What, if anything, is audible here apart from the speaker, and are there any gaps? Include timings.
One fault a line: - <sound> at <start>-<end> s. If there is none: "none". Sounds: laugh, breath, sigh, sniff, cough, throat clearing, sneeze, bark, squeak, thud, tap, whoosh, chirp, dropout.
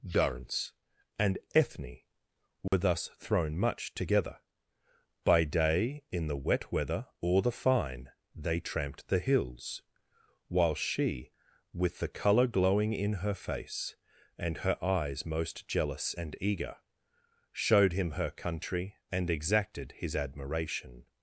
- dropout at 2.7-2.7 s